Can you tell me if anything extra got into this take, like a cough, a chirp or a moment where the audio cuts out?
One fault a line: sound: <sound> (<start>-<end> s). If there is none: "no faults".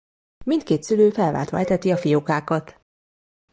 no faults